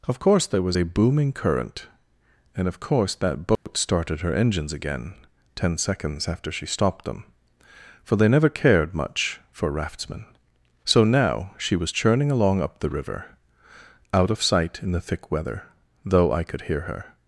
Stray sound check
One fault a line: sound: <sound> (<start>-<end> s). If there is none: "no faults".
sound: dropout (3.6-3.7 s)